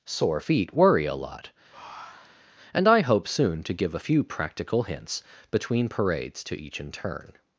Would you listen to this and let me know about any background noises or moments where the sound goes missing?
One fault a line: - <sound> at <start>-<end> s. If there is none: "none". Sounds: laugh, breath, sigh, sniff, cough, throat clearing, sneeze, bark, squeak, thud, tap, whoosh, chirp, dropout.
- breath at 1.7-2.5 s